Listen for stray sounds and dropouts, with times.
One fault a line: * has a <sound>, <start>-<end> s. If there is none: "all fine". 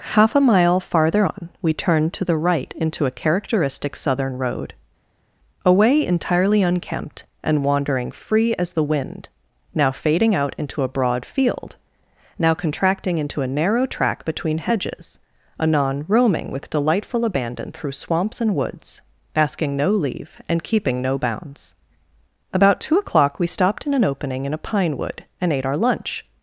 all fine